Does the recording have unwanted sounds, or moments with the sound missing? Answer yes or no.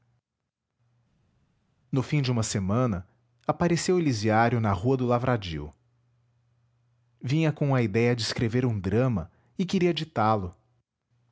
no